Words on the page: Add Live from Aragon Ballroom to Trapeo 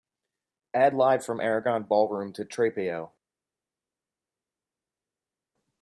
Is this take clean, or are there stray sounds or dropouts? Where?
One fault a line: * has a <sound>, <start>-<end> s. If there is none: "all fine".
all fine